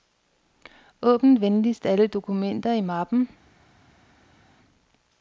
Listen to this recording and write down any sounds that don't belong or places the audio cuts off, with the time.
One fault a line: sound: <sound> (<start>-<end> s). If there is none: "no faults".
no faults